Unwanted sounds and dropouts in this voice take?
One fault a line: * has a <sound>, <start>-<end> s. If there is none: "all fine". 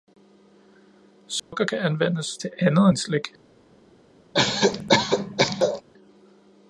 * has a dropout, 1.4-1.5 s
* has a cough, 4.3-5.8 s